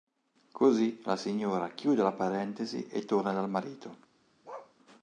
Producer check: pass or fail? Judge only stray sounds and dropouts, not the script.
fail